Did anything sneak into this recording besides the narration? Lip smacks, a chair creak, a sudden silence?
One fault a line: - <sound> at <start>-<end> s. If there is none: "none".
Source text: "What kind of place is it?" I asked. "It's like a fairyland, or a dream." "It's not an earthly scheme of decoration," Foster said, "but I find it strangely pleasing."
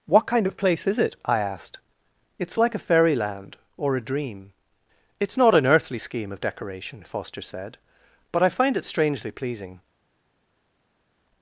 none